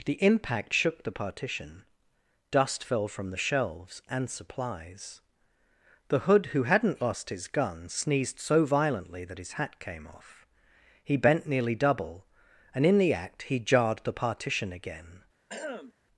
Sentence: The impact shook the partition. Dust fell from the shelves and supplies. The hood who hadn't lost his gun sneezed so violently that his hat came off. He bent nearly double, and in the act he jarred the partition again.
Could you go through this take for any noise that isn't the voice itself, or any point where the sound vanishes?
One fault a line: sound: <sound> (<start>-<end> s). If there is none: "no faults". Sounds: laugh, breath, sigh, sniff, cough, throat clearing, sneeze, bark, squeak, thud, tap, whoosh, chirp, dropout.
sound: throat clearing (15.5-15.9 s)